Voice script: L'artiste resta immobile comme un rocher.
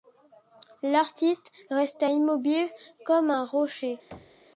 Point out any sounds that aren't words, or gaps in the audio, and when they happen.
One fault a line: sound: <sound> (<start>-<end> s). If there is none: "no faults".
sound: thud (4.1-4.5 s)